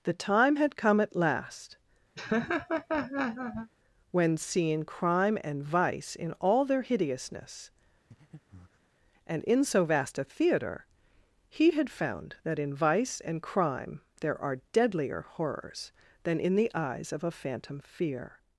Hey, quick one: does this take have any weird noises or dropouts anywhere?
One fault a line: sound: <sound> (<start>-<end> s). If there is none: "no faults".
sound: laugh (2.2-3.7 s)
sound: breath (8.1-8.9 s)